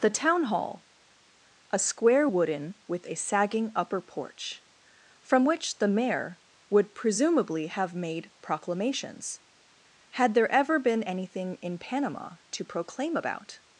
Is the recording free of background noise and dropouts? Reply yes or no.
yes